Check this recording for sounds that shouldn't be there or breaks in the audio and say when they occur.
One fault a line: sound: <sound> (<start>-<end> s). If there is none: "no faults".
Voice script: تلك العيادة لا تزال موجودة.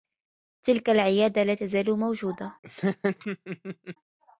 sound: laugh (2.6-4.0 s)